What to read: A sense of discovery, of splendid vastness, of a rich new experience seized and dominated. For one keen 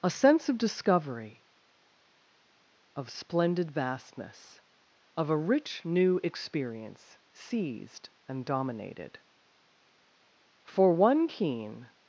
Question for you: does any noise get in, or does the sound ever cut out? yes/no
no